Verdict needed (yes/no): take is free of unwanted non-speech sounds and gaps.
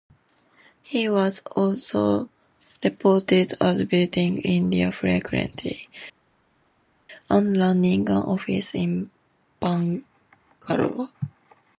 yes